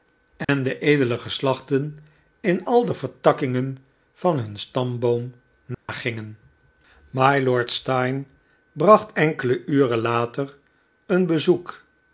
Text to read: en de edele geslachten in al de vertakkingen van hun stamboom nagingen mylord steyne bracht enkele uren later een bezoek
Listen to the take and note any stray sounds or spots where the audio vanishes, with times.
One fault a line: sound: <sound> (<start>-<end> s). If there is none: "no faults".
sound: dropout (0.4-0.5 s)
sound: dropout (5.7-5.9 s)